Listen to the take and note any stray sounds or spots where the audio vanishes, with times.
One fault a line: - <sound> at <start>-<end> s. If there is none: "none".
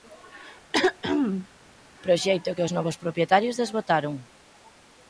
- throat clearing at 0.7-1.5 s